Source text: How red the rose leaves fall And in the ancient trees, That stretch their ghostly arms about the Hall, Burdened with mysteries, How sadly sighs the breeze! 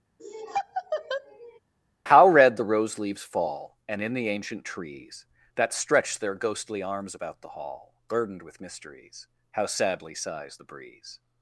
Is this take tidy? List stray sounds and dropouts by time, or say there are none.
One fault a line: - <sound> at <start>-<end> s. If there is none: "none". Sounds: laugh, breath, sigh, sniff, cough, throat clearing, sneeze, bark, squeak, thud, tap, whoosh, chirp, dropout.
- laugh at 0.2-1.6 s